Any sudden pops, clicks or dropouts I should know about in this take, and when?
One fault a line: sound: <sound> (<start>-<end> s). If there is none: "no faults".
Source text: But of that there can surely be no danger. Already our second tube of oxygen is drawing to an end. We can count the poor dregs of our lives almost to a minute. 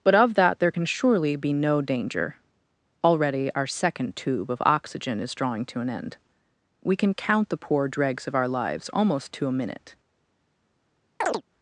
sound: chirp (11.2-11.4 s)